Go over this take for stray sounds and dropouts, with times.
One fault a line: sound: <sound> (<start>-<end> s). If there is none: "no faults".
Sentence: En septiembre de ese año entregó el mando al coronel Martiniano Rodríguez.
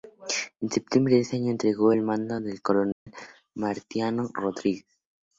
sound: dropout (2.9-3.1 s)